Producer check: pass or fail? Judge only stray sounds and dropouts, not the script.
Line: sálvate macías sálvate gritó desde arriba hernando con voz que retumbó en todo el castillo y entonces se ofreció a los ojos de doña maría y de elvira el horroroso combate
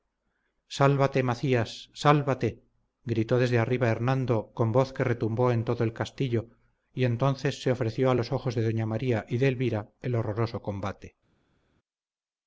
pass